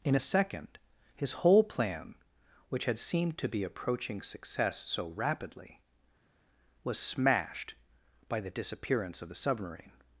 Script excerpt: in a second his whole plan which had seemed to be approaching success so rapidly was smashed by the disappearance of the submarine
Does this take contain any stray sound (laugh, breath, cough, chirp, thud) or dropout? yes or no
no